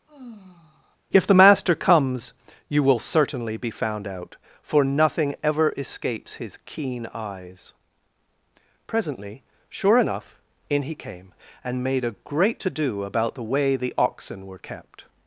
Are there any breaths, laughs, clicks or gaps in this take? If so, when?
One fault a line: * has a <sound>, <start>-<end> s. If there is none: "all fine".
* has a sigh, 0.1-1.0 s